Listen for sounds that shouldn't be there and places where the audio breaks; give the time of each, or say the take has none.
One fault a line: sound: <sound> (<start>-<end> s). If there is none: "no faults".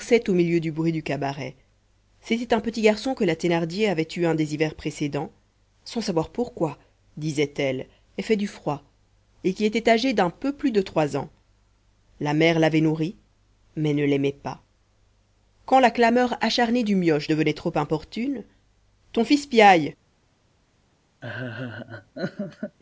sound: laugh (21.2-22.8 s)